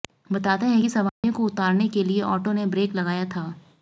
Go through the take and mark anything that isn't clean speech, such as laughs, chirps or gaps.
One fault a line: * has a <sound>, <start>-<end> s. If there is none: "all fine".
* has a dropout, 1.1-1.2 s